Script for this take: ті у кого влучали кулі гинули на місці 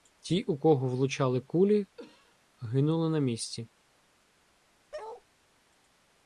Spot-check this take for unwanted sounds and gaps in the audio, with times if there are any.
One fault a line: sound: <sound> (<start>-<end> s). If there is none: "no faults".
sound: cough (2.0-2.4 s)
sound: bark (4.9-5.2 s)